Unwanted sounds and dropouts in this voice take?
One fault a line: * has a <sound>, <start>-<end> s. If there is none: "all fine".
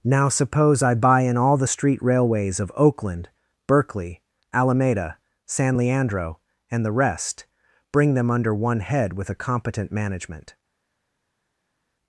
all fine